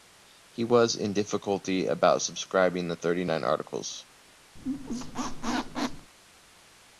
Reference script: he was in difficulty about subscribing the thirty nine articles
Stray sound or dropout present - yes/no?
yes